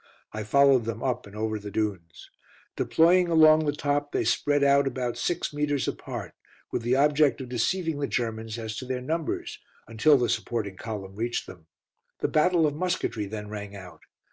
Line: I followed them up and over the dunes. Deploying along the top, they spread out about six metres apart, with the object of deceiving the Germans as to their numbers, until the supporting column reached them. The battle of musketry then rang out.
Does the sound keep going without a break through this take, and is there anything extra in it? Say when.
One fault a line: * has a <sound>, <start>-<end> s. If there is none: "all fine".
all fine